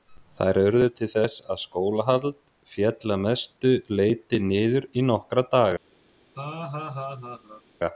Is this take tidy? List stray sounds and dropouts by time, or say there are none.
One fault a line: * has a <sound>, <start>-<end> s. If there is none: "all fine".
* has a laugh, 6.4-7.6 s